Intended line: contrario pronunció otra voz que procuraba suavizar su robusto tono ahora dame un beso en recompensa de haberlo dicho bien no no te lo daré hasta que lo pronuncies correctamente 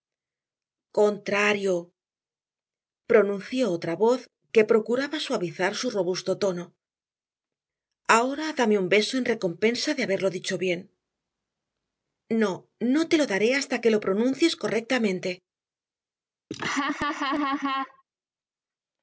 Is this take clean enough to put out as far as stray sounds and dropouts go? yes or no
no